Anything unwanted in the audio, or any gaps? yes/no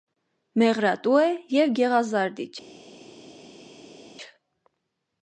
no